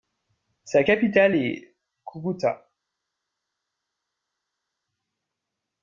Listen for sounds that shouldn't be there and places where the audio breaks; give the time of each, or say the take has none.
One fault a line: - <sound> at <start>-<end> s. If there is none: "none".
none